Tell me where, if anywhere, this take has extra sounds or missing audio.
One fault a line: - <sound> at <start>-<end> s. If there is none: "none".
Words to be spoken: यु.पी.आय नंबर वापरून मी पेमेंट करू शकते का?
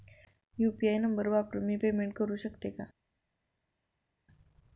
none